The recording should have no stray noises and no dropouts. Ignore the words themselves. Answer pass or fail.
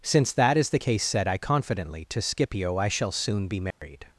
fail